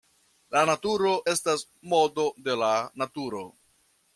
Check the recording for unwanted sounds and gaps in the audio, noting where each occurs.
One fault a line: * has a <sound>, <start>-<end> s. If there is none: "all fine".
all fine